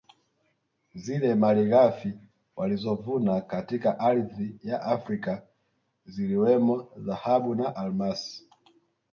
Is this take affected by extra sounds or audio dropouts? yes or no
no